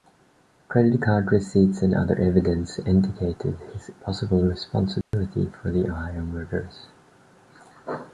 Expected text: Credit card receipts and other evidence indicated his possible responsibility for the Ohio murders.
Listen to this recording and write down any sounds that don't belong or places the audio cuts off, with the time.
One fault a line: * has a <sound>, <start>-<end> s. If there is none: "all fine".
* has a dropout, 5.0-5.1 s